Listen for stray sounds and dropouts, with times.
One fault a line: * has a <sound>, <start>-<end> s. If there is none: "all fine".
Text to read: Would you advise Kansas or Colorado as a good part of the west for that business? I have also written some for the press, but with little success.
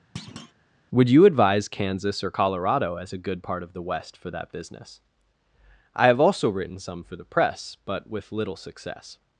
* has a thud, 0.2-0.5 s